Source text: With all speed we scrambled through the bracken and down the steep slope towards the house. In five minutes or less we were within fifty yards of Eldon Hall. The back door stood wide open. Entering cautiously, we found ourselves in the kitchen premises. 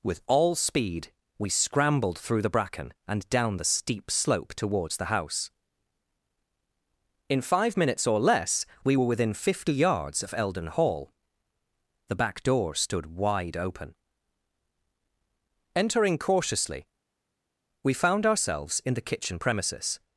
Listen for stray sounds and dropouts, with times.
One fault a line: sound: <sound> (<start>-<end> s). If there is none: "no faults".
no faults